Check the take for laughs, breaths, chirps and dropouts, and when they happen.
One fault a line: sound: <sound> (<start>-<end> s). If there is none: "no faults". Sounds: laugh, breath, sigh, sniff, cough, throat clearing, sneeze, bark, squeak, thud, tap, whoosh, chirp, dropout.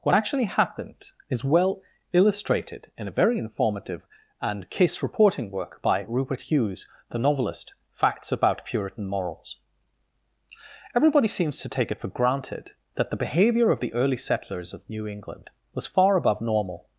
no faults